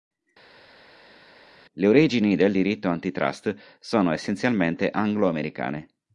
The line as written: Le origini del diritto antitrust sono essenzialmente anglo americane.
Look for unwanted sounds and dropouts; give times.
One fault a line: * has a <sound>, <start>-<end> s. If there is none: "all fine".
all fine